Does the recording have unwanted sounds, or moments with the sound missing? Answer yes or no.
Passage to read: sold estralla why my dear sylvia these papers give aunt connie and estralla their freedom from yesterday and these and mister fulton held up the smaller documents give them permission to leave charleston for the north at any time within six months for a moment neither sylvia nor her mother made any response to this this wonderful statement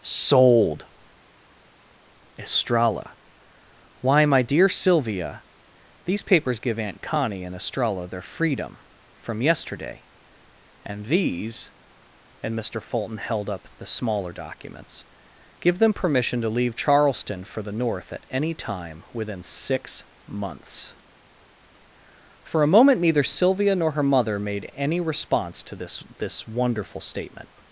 no